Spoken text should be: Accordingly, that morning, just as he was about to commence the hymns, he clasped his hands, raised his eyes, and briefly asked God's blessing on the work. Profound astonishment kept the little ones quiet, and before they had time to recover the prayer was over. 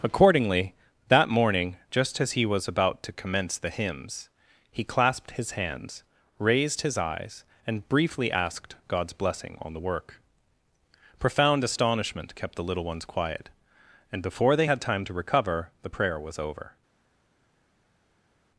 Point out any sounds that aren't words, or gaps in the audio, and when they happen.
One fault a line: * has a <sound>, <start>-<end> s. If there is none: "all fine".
all fine